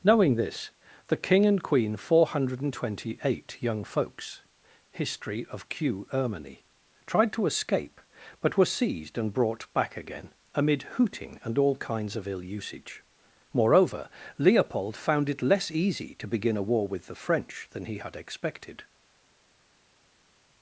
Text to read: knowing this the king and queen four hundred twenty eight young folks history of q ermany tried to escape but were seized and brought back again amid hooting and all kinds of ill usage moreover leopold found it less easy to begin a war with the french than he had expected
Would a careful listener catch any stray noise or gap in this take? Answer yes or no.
no